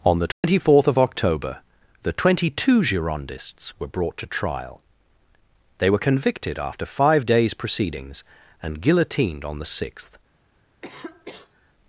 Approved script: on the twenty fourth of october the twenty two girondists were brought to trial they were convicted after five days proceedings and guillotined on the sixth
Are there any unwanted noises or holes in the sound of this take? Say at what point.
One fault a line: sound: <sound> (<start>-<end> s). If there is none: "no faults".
sound: dropout (0.3-0.4 s)
sound: cough (10.8-11.7 s)